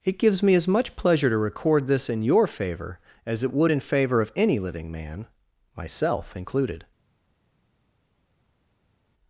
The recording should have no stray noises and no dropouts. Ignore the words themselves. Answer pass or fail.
pass